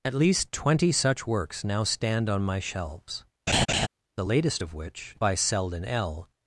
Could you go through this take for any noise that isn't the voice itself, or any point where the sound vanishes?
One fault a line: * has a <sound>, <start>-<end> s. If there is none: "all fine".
* has a laugh, 3.5-3.9 s